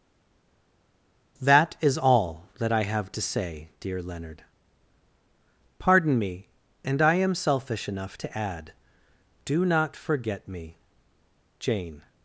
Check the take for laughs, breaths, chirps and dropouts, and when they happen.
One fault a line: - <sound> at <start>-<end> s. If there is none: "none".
none